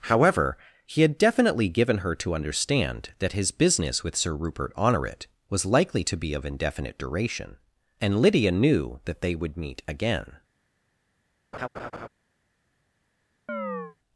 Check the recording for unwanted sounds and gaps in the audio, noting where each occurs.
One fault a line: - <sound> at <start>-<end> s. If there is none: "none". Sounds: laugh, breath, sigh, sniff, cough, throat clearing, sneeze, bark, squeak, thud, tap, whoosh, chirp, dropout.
- laugh at 11.5-12.1 s
- chirp at 13.5-14.0 s